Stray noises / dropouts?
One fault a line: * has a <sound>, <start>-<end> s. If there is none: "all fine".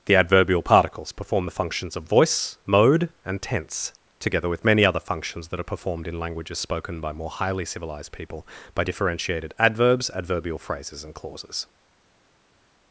all fine